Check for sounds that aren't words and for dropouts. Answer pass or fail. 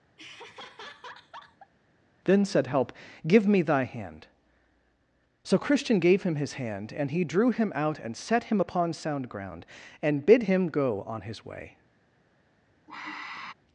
fail